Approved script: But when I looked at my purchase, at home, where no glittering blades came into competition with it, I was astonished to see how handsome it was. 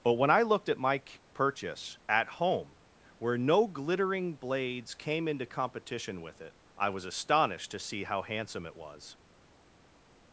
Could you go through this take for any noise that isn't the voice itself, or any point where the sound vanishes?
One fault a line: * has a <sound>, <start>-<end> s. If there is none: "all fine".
all fine